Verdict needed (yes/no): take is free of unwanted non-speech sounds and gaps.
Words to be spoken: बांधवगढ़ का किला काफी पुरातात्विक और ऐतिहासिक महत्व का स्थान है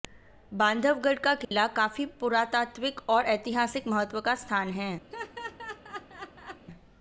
no